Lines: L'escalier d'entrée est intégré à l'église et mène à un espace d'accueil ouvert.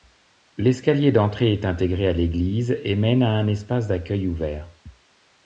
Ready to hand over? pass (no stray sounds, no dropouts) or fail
pass